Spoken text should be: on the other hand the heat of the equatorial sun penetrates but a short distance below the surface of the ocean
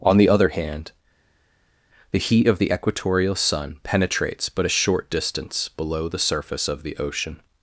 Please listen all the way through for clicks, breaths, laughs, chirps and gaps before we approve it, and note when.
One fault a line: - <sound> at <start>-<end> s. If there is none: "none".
none